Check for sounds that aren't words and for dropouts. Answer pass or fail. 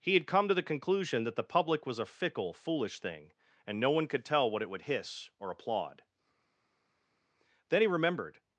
pass